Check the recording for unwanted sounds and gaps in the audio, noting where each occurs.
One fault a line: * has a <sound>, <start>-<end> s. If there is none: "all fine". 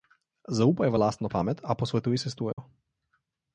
* has a dropout, 2.5-2.6 s